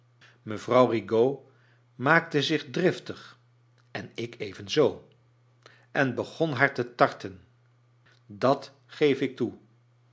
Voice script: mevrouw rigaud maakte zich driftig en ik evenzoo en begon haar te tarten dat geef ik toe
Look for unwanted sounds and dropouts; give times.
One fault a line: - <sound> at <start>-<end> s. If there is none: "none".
none